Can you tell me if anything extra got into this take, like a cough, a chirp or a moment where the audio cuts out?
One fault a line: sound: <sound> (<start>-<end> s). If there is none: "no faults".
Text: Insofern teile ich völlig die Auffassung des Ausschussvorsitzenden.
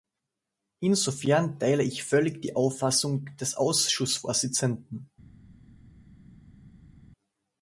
no faults